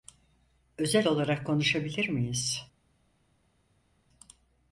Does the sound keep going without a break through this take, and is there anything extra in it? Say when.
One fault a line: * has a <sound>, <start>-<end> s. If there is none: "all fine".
all fine